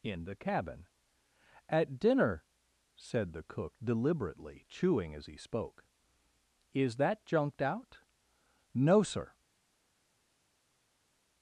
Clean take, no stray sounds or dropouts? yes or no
yes